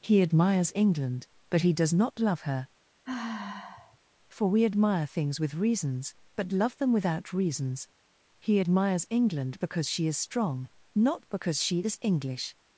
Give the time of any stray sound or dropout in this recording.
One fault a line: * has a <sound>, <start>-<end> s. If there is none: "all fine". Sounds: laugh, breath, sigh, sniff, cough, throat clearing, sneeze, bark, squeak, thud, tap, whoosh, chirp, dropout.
* has a sigh, 3.0-4.0 s